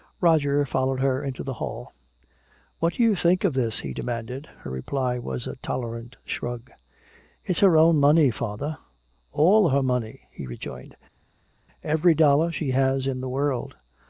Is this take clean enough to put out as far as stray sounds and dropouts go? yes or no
yes